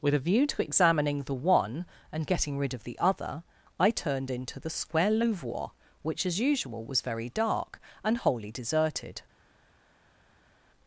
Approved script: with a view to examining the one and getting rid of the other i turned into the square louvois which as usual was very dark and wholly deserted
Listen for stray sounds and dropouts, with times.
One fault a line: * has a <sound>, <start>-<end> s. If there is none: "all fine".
all fine